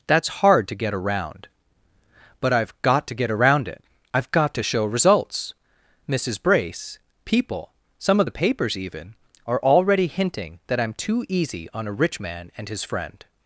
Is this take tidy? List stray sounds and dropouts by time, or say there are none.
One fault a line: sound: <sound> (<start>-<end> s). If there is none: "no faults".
no faults